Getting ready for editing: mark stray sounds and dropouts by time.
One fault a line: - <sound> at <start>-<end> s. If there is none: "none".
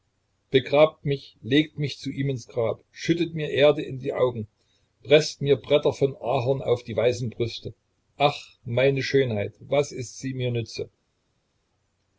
none